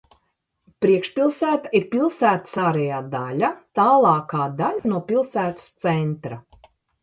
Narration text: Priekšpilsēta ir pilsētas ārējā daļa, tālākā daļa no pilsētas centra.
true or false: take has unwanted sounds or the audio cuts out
true